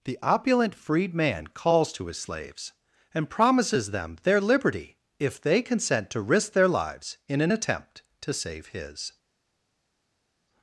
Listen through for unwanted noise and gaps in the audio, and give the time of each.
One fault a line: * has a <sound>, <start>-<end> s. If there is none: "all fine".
all fine